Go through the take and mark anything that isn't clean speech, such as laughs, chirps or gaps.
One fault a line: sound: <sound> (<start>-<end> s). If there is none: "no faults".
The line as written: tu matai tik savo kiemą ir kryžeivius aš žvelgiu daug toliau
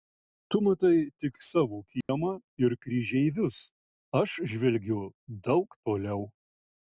sound: dropout (2.0-2.1 s)